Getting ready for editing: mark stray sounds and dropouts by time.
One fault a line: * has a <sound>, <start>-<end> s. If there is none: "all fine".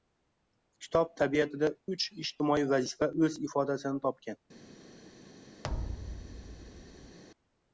* has a thud, 5.6-7.2 s